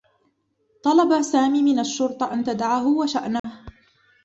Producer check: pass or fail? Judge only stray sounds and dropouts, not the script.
fail